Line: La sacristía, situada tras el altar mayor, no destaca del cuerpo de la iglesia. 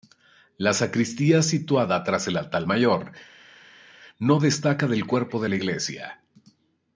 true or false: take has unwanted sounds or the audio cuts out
false